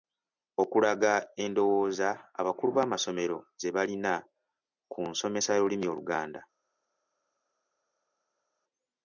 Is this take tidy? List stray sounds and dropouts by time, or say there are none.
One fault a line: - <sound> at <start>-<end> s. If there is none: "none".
none